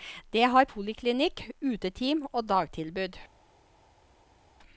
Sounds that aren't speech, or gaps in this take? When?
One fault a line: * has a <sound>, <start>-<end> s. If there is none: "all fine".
all fine